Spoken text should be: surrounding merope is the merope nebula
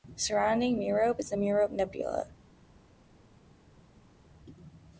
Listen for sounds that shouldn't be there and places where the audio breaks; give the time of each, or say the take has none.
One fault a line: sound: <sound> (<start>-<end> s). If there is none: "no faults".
no faults